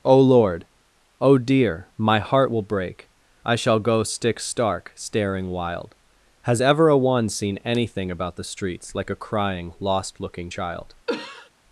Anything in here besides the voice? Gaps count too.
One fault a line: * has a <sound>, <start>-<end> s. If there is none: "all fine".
* has a cough, 11.1-11.5 s